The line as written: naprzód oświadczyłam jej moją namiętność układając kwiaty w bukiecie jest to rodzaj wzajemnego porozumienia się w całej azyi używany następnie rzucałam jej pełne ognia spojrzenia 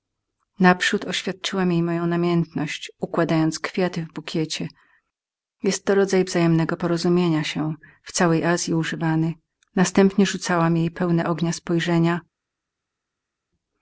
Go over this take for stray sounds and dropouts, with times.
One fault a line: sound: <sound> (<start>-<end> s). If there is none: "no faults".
no faults